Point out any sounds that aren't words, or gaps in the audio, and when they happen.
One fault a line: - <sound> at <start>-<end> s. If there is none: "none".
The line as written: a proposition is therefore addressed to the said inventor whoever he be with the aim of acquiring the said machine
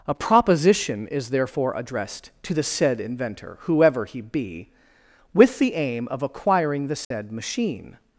- dropout at 7.0-7.1 s